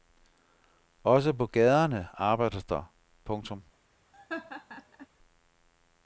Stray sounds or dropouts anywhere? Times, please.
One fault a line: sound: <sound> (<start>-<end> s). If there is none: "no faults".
sound: laugh (4.1-5.1 s)